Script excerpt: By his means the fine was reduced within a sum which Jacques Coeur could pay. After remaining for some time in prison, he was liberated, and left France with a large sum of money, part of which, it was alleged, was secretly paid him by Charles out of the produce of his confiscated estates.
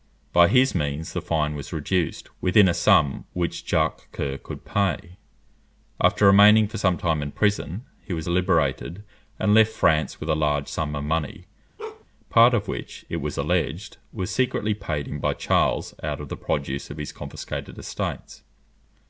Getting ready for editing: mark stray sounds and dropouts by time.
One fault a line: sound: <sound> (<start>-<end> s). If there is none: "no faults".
sound: bark (11.8-12.0 s)